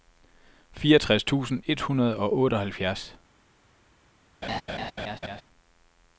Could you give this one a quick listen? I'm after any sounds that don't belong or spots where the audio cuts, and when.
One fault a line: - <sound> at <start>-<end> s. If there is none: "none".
- laugh at 4.4-5.4 s